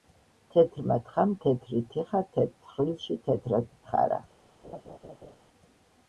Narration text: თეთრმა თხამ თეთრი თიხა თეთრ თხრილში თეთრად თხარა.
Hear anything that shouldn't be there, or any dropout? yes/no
yes